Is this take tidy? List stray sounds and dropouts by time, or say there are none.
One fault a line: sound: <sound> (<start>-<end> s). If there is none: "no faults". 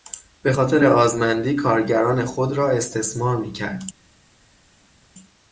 no faults